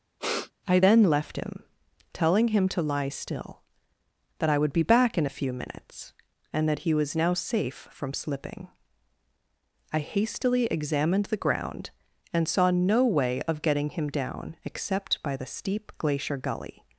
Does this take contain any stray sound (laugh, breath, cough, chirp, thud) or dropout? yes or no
yes